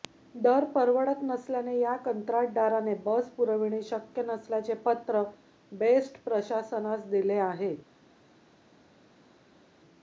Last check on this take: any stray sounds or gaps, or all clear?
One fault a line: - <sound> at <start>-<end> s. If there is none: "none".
none